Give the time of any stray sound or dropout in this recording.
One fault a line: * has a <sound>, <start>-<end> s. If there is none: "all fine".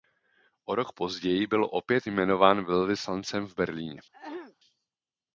* has a throat clearing, 4.1-4.6 s